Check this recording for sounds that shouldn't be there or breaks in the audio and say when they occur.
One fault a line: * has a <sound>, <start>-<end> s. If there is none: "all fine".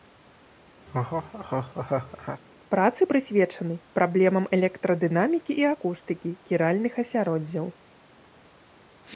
* has a laugh, 0.9-2.4 s